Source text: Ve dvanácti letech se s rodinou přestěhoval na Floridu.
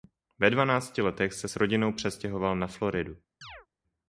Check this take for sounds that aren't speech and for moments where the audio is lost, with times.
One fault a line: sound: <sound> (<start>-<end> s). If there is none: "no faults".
sound: chirp (3.4-3.7 s)